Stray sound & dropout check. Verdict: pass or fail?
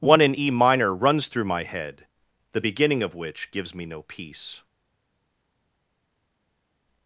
pass